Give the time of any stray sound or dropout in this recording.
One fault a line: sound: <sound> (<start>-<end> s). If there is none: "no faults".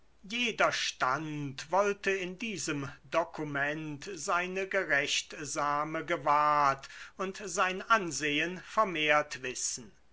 no faults